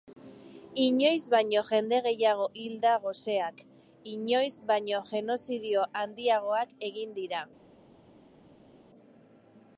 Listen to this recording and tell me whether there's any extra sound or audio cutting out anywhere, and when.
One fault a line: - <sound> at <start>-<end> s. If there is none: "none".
none